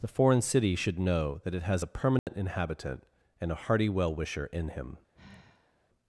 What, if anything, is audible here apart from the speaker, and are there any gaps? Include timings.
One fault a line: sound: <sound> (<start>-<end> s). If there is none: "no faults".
sound: dropout (2.2-2.3 s)
sound: sigh (5.1-5.9 s)